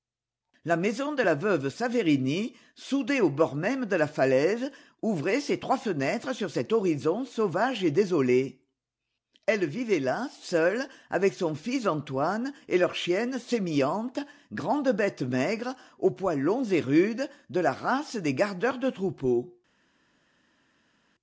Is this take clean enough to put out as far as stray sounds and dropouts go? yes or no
yes